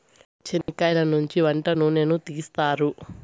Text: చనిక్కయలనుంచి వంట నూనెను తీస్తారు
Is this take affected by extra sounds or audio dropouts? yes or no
yes